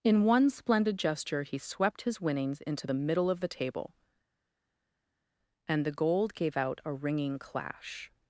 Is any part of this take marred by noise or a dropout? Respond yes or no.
no